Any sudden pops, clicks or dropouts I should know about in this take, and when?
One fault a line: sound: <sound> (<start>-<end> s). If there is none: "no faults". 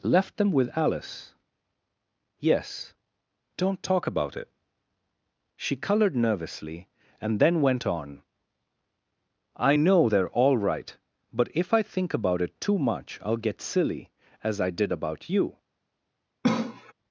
sound: cough (16.4-16.9 s)